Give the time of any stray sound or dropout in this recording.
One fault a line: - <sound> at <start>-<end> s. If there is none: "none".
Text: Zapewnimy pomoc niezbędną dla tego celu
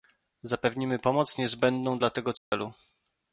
- dropout at 2.4-2.5 s